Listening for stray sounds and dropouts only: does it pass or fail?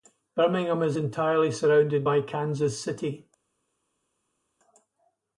pass